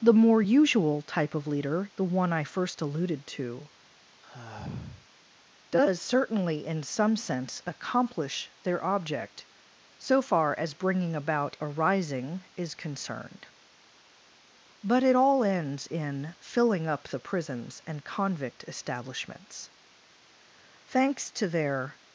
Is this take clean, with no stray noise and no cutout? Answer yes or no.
no